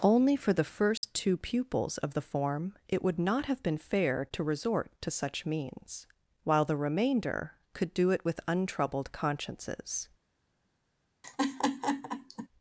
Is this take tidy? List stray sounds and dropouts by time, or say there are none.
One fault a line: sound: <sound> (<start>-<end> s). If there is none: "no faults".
sound: dropout (1.0-1.0 s)
sound: laugh (11.2-12.5 s)